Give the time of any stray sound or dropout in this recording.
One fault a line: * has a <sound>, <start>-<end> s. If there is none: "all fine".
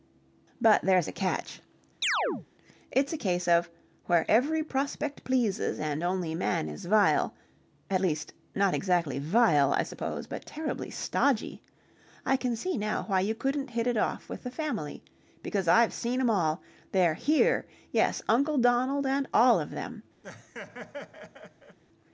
* has a chirp, 2.0-2.5 s
* has a laugh, 20.2-21.8 s